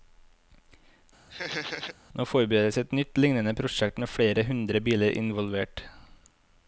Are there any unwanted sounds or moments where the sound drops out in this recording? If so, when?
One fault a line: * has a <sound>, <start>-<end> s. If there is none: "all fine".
* has a laugh, 1.3-2.0 s